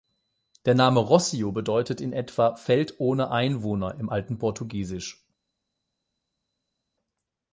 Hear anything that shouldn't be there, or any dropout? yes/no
no